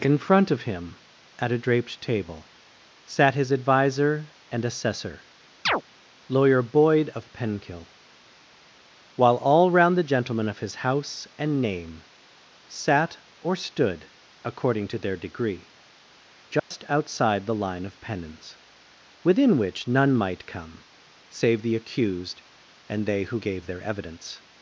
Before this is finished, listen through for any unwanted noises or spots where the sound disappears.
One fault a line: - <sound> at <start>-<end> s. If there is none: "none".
- chirp at 5.7-5.8 s
- dropout at 16.6-16.7 s